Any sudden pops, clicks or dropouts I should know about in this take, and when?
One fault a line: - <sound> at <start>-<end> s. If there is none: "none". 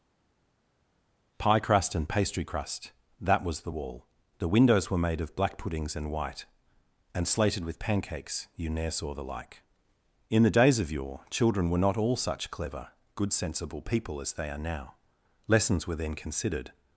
none